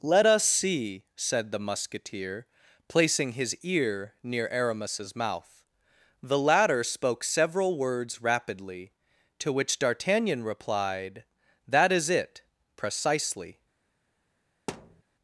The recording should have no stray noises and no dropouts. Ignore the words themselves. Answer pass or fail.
fail